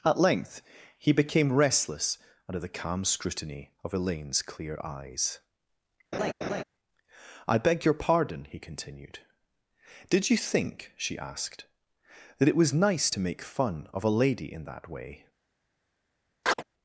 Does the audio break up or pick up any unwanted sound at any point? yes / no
yes